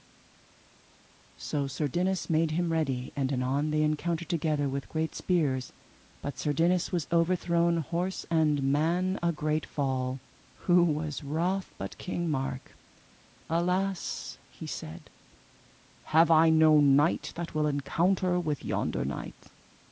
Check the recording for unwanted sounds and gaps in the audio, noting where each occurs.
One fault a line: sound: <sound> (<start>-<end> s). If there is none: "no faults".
no faults